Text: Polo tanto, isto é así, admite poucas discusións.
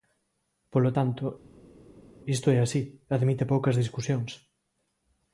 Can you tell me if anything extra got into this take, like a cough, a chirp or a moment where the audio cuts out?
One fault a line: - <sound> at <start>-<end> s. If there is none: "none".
none